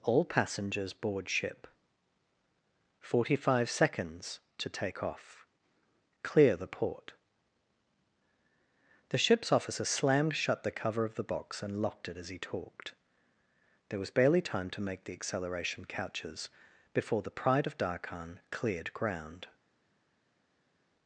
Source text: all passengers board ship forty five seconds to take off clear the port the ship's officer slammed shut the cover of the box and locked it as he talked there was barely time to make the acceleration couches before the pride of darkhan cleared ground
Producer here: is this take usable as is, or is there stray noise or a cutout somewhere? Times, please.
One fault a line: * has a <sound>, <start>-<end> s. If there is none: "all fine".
all fine